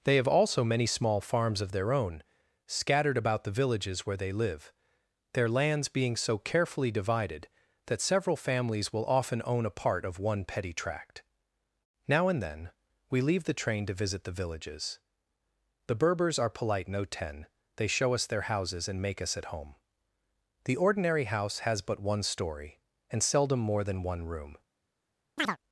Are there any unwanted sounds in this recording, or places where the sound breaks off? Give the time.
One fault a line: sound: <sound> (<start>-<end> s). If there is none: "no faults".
sound: chirp (25.4-25.6 s)